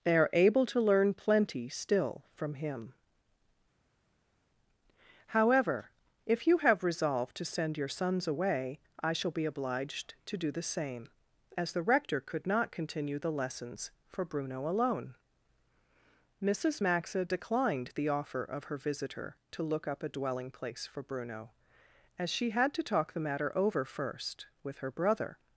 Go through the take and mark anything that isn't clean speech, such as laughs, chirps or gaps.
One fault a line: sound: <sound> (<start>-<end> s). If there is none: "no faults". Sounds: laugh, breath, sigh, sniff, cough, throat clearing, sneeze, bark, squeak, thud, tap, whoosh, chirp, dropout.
no faults